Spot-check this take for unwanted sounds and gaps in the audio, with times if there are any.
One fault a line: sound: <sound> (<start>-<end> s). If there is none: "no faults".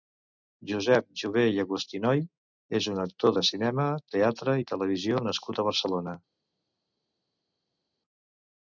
no faults